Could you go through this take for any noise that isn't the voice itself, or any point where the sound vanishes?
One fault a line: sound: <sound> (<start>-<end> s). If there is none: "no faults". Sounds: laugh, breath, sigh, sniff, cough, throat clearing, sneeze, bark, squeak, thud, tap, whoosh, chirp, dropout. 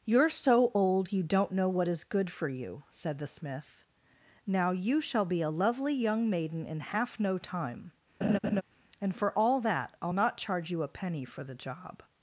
sound: laugh (8.2-8.6 s)